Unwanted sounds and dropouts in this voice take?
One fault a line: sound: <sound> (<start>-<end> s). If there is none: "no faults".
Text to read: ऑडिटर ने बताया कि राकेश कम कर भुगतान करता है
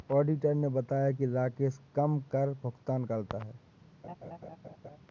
sound: laugh (4.0-5.0 s)